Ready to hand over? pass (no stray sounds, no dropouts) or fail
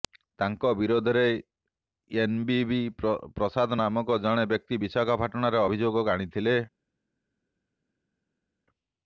pass